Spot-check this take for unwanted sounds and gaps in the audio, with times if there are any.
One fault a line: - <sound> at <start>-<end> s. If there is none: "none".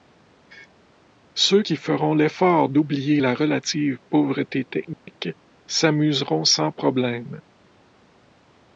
- dropout at 4.9-5.1 s